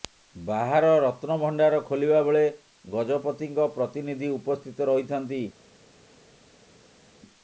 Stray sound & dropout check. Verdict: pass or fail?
pass